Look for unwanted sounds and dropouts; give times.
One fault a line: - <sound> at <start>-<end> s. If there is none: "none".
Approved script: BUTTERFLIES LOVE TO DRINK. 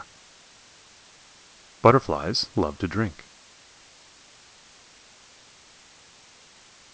none